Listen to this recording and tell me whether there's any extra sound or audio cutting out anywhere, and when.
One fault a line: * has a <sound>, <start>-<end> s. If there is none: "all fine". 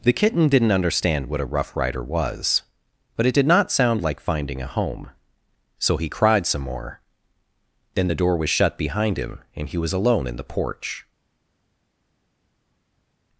all fine